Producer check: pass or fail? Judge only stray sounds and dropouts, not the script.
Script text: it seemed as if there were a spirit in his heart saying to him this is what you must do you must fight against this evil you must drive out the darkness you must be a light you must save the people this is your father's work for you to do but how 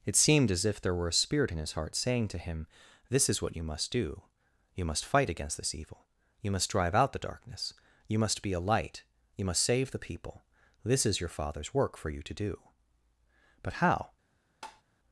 fail